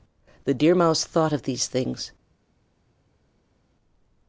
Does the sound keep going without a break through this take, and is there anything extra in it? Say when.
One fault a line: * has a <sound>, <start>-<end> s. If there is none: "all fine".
all fine